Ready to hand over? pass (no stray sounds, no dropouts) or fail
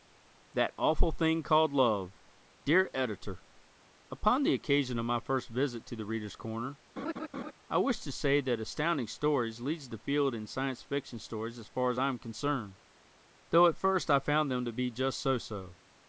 fail